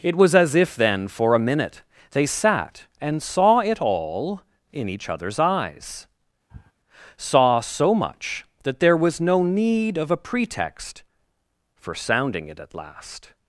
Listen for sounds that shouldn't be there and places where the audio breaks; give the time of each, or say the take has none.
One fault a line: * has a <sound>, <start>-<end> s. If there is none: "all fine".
* has a sniff, 6.5-6.7 s